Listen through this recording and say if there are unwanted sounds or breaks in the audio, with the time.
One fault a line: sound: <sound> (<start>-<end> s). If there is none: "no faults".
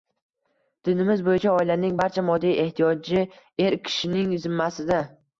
no faults